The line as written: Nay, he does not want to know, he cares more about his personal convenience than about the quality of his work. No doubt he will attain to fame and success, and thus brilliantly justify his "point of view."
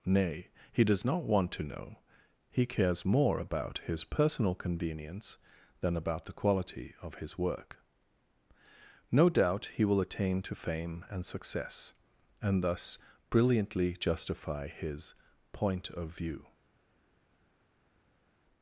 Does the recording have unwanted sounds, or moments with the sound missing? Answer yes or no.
no